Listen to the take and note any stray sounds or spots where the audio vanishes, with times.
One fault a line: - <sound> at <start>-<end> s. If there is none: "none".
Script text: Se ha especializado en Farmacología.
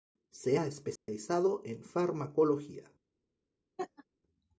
- dropout at 1.0-1.1 s
- laugh at 3.8-4.0 s